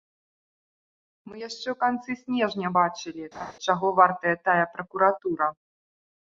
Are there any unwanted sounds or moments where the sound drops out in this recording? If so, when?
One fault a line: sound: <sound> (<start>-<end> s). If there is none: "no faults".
sound: laugh (3.3-3.5 s)